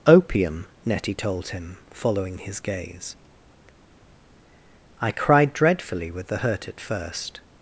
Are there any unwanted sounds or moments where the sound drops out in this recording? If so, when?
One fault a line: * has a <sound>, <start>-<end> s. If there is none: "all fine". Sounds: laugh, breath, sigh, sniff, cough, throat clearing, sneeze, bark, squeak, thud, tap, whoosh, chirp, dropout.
all fine